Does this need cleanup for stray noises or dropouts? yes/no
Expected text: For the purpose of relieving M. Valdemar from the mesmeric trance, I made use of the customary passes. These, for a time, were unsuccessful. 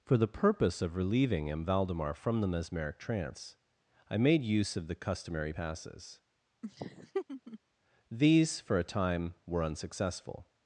yes